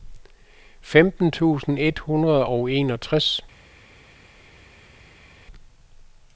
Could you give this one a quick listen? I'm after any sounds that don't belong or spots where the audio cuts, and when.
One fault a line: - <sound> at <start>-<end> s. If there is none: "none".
none